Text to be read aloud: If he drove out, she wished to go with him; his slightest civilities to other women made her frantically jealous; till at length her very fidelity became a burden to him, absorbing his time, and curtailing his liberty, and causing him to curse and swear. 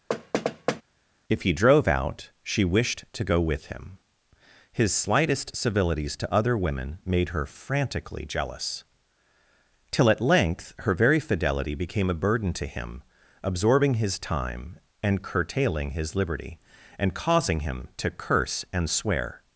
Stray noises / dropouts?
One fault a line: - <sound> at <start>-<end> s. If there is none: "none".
- thud at 0.1-0.8 s